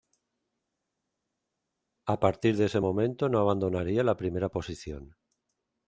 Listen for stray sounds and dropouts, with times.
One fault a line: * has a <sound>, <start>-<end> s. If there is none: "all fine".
all fine